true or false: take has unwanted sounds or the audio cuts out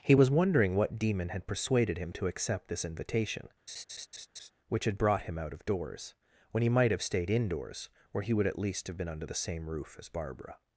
true